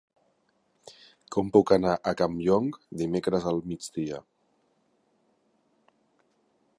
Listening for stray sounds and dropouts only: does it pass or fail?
pass